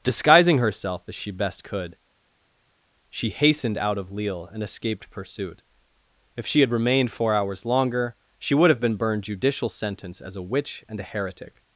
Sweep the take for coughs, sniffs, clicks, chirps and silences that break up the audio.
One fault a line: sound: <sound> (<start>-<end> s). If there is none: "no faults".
no faults